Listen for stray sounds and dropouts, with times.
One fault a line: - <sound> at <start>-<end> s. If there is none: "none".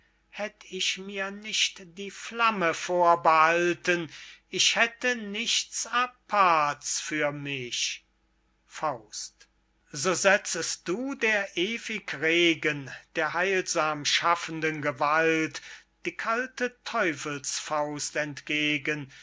none